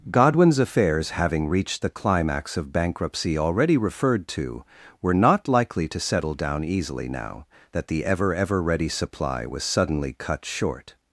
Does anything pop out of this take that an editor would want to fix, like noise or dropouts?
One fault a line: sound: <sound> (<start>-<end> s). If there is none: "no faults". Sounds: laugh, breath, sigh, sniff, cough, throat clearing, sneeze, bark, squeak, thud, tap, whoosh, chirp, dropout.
no faults